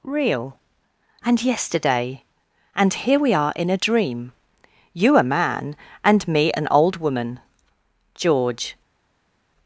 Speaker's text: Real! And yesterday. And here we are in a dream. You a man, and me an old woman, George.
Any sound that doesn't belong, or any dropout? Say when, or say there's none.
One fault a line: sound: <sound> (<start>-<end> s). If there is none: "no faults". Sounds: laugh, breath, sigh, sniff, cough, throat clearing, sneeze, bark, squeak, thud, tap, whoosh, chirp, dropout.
no faults